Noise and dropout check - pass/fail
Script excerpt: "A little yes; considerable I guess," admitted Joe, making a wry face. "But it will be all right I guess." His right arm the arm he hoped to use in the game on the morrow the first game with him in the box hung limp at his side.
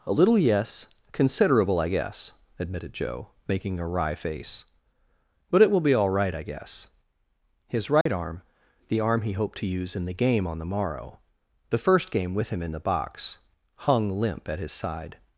fail